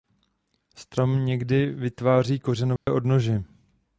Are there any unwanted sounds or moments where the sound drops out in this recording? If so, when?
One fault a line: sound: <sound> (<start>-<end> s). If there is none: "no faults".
sound: dropout (2.8-2.9 s)